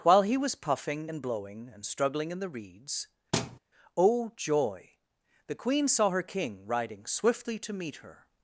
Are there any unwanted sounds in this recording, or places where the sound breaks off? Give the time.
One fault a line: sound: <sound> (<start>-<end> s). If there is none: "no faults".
sound: thud (3.3-3.6 s)